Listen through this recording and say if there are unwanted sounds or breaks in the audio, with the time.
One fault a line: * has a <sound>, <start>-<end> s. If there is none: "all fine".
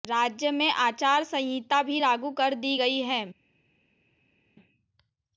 all fine